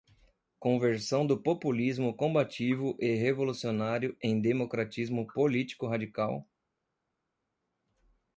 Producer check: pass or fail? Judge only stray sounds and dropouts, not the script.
pass